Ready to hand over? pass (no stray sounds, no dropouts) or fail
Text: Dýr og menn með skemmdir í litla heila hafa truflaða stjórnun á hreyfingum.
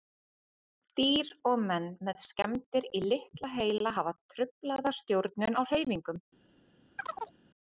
fail